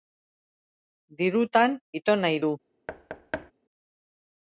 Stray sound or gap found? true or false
true